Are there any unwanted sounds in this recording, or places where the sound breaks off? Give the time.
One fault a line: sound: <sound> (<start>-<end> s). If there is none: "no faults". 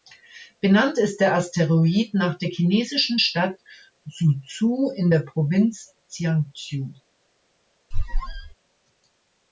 sound: squeak (7.9-8.5 s)